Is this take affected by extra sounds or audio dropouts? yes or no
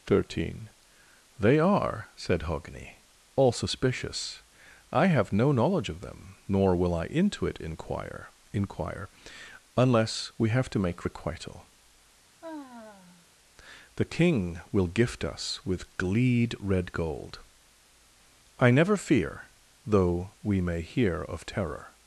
yes